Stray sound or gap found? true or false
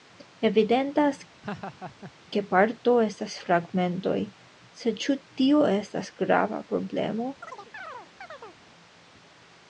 true